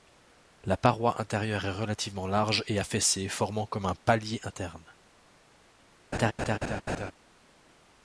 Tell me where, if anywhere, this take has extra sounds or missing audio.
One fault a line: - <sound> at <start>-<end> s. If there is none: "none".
- laugh at 6.1-7.1 s